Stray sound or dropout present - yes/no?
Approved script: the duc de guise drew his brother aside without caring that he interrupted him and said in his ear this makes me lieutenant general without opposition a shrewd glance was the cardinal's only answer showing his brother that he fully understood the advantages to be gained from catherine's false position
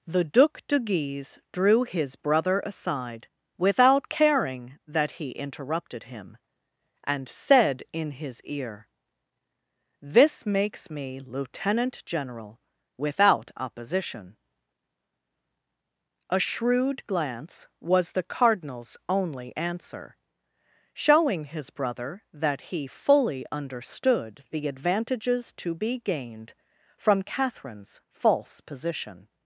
no